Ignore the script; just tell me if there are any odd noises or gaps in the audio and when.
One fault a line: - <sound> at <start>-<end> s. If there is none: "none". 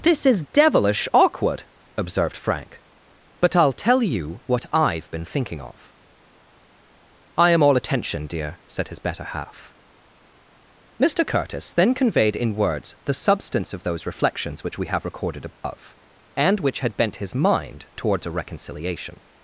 - dropout at 15.6-15.6 s